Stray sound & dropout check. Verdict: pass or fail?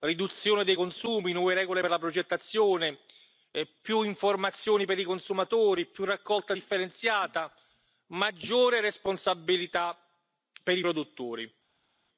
pass